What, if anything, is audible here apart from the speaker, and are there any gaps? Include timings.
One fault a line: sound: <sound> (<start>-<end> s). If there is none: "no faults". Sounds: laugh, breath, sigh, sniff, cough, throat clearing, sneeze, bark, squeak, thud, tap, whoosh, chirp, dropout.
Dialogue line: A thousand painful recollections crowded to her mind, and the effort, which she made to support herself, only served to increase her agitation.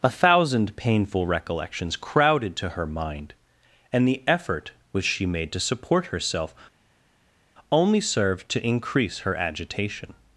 no faults